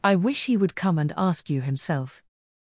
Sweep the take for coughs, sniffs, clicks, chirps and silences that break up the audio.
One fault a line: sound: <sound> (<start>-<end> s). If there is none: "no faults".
no faults